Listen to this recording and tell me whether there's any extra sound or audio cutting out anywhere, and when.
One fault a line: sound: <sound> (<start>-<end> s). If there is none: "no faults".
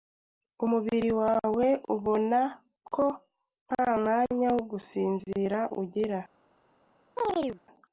sound: chirp (7.2-7.6 s)